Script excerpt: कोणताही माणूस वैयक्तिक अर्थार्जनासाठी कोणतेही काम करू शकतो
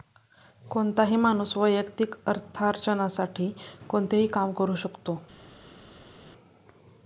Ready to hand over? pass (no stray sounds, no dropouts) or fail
pass